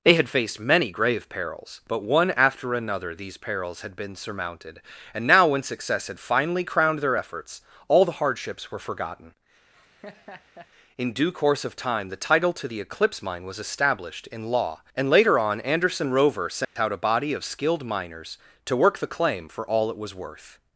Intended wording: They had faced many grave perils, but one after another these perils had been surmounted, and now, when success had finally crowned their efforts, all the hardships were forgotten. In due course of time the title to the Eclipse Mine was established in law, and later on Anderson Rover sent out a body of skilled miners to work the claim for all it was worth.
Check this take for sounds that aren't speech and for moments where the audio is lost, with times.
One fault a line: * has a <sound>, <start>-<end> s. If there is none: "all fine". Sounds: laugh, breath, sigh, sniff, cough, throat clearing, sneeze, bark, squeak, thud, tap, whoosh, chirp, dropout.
* has a laugh, 9.7-10.7 s
* has a dropout, 16.6-16.8 s